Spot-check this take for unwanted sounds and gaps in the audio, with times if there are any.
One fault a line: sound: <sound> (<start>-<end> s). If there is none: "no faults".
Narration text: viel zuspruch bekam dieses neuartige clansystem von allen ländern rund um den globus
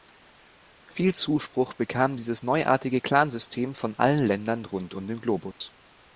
sound: dropout (5.5-5.6 s)